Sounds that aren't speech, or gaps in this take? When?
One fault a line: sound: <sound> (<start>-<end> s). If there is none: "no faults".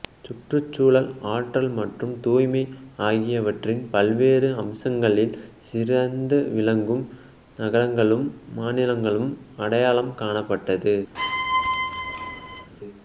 sound: squeak (11.1-12.7 s)